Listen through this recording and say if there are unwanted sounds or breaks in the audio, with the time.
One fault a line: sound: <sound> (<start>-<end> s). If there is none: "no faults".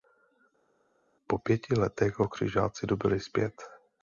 no faults